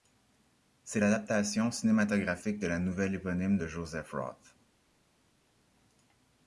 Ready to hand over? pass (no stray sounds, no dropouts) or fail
pass